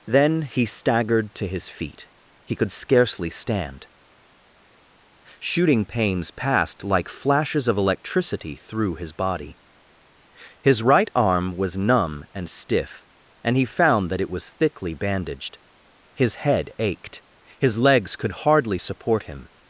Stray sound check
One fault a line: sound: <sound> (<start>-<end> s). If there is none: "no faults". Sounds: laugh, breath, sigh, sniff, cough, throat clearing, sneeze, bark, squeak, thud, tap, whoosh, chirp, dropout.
no faults